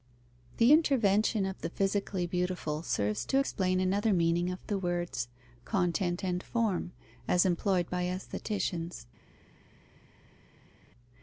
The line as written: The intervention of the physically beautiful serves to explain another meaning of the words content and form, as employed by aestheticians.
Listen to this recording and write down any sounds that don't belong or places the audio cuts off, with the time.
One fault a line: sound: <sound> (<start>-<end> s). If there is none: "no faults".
no faults